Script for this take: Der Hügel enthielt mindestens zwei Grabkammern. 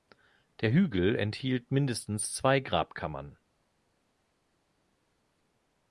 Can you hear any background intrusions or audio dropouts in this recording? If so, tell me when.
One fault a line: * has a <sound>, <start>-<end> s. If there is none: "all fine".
all fine